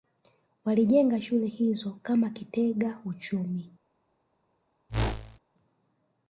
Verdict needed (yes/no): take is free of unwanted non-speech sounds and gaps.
no